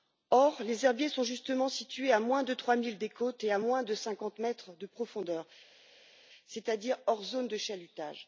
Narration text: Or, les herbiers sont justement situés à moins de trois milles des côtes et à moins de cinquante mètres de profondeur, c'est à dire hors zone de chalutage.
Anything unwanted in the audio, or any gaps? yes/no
no